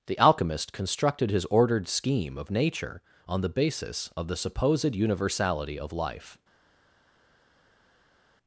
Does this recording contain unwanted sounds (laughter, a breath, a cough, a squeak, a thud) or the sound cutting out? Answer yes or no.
no